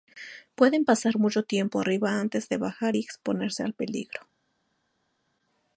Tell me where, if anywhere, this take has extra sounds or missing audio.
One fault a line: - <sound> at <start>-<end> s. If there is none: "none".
none